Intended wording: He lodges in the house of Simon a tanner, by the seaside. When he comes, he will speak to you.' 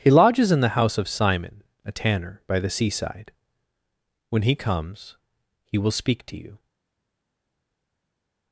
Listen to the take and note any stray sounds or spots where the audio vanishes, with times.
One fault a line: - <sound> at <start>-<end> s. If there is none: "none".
none